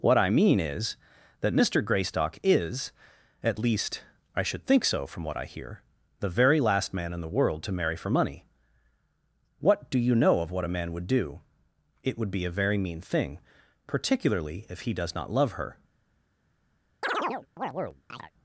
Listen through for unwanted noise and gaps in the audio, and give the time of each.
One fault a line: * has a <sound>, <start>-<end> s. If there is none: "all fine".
* has a chirp, 17.0-18.3 s